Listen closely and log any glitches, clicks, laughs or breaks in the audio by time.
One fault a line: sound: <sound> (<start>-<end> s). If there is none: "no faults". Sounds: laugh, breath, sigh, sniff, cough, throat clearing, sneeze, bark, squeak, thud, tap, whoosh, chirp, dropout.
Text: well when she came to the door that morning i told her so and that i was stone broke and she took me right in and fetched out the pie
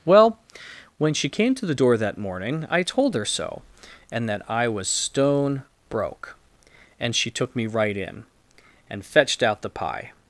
no faults